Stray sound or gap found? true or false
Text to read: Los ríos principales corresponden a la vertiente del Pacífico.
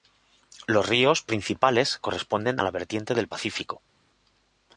false